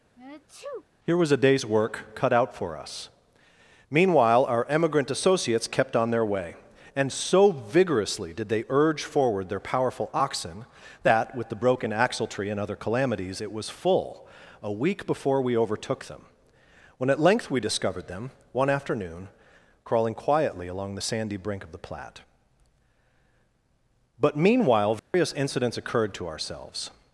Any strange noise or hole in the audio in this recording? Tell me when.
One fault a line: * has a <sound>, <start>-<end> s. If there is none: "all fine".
* has a sneeze, 0.2-0.9 s
* has a dropout, 25.0-25.1 s